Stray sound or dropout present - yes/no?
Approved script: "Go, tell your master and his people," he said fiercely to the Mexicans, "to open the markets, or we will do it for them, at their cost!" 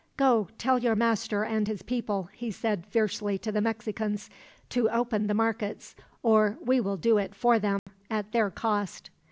yes